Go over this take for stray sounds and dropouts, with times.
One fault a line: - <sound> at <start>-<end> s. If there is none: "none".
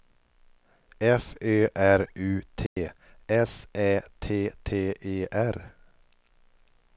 - dropout at 2.7-2.8 s